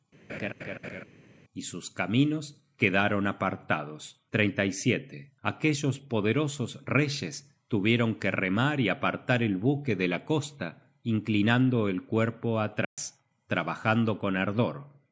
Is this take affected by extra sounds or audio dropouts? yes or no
yes